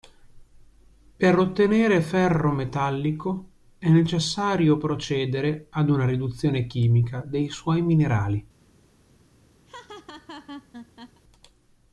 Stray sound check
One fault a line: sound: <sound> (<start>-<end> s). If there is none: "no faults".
sound: laugh (9.7-11.2 s)